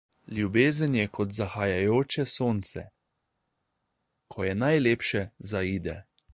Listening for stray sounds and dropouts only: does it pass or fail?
pass